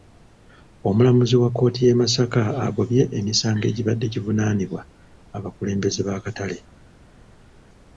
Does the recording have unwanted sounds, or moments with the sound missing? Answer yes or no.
no